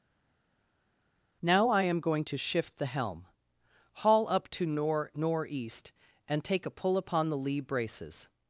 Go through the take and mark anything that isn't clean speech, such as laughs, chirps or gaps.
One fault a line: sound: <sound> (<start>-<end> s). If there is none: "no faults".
no faults